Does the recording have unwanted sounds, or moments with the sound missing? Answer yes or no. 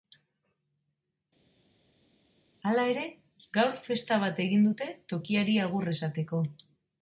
no